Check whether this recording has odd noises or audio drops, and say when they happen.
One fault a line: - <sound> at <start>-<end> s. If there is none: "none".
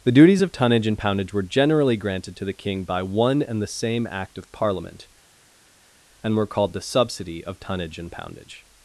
none